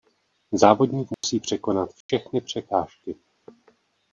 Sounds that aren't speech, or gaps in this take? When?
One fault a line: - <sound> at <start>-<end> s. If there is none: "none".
- dropout at 1.1-1.2 s
- dropout at 2.0-2.1 s